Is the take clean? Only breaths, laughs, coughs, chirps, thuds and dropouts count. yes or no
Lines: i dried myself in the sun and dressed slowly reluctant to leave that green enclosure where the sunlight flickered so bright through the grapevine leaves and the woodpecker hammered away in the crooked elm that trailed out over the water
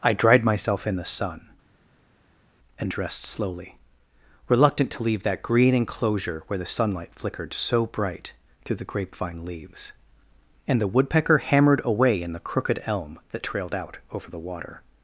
yes